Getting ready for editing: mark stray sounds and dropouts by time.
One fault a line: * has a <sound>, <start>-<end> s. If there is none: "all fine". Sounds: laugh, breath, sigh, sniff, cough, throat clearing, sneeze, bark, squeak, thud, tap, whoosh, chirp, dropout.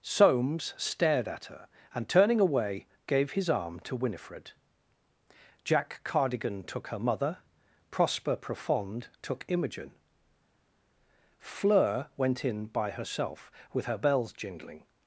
all fine